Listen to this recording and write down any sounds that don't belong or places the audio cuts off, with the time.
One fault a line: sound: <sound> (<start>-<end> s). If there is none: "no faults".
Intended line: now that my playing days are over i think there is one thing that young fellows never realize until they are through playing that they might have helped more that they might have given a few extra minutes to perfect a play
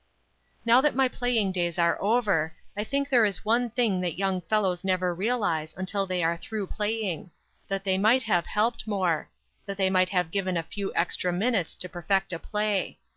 no faults